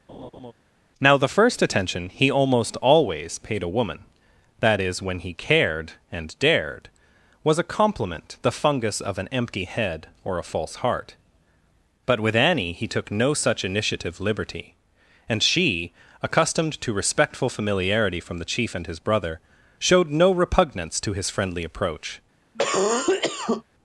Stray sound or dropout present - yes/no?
yes